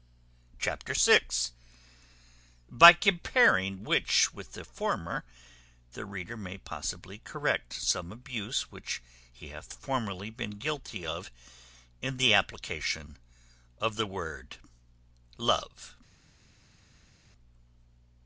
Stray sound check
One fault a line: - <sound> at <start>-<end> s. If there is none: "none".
none